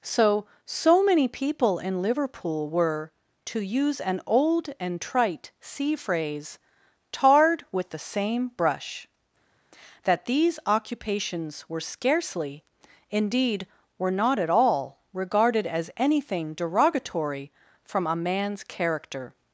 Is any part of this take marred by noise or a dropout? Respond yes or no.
no